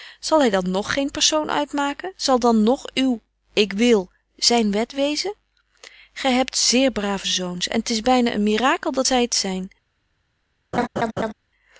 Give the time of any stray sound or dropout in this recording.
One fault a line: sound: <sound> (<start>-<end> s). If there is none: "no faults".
sound: laugh (10.7-11.3 s)